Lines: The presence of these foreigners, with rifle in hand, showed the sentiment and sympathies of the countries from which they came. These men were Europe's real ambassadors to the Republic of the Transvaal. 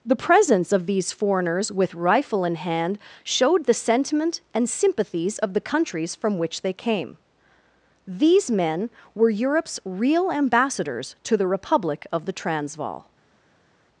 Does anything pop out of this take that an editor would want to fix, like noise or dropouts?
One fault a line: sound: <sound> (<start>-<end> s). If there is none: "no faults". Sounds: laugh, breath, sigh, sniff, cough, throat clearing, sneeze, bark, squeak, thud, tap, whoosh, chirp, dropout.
no faults